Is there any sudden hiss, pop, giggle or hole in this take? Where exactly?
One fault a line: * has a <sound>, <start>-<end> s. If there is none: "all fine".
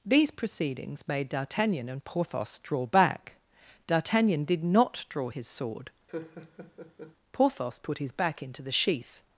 * has a laugh, 6.1-7.2 s